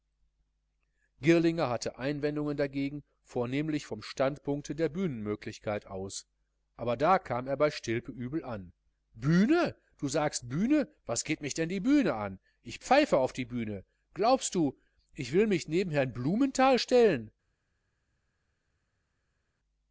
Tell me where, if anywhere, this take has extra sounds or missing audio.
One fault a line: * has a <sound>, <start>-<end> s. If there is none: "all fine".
all fine